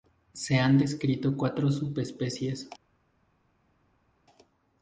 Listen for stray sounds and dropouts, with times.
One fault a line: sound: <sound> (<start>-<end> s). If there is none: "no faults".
no faults